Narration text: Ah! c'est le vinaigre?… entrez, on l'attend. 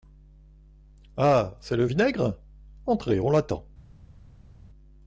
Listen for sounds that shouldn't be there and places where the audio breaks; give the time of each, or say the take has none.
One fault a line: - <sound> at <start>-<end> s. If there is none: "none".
none